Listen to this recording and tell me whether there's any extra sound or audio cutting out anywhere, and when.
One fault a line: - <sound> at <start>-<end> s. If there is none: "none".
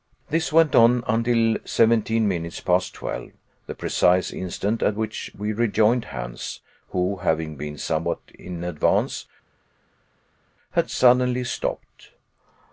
none